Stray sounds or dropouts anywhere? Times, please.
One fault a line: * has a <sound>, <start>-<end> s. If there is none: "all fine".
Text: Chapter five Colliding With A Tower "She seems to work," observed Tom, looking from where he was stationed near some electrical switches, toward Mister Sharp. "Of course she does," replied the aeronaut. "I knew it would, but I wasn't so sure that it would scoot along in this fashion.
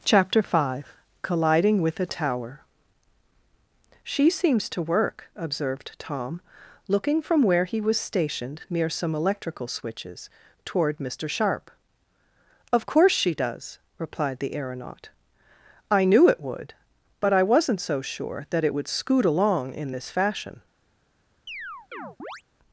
* has a chirp, 21.5-22.4 s